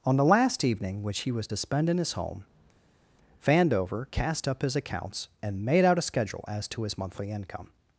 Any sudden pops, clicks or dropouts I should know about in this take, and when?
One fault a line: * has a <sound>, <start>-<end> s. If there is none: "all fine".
all fine